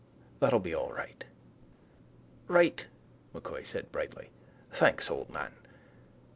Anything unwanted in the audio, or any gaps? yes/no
no